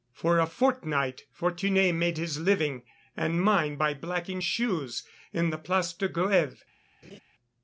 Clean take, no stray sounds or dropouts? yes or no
no